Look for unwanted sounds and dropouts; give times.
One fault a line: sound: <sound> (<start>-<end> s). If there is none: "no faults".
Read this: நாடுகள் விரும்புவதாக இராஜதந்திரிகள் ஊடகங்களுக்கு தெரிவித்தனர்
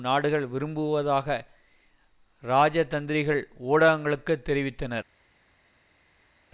no faults